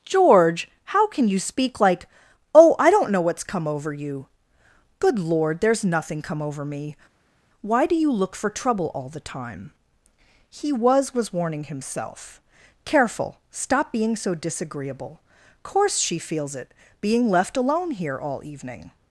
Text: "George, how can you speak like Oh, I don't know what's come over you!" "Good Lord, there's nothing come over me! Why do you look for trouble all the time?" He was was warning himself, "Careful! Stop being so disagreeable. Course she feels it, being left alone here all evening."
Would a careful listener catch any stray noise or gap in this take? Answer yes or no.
no